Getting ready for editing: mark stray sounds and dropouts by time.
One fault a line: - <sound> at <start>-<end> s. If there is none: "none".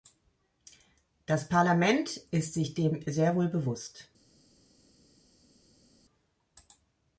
none